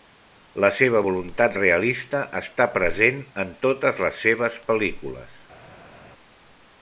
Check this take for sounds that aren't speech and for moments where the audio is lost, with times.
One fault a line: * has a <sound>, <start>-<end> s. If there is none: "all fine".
all fine